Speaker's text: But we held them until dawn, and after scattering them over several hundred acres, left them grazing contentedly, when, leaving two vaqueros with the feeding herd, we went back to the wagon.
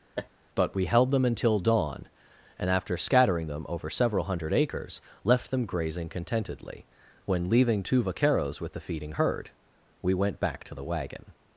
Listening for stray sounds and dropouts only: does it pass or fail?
fail